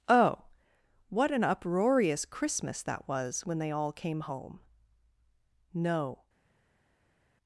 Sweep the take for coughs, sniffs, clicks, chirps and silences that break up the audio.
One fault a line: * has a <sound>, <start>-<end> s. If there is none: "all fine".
all fine